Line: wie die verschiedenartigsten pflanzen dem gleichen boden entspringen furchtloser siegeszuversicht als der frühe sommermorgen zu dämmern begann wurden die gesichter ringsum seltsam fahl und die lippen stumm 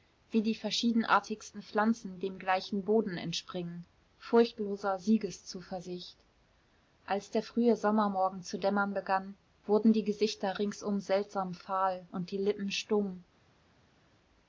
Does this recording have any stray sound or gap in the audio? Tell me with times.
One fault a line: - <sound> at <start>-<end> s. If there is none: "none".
none